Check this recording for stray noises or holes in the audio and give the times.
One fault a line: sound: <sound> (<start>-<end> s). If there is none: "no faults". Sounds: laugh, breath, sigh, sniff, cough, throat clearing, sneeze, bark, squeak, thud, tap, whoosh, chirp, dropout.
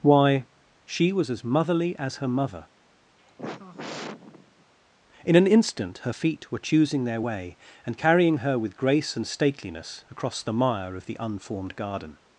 sound: sigh (3.2-4.6 s)